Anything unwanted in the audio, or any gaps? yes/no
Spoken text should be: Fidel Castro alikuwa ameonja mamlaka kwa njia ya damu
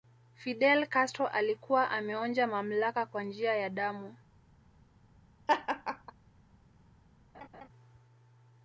yes